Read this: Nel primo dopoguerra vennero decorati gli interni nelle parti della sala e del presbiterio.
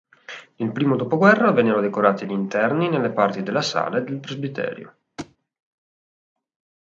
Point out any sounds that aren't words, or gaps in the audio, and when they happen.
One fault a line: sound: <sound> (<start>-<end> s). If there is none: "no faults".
sound: thud (5.2-5.4 s)